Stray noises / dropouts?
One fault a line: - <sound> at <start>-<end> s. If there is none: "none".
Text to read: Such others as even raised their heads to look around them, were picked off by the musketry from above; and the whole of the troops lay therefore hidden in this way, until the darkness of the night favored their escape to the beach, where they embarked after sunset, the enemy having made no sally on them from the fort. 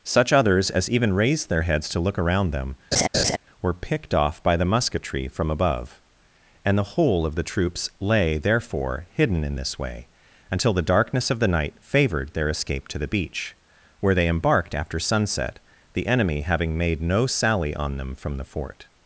- laugh at 2.9-3.4 s